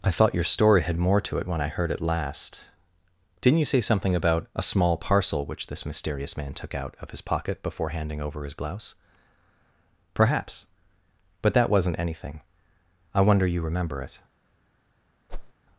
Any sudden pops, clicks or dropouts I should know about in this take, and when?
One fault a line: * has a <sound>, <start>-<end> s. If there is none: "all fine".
* has a whoosh, 15.3-15.5 s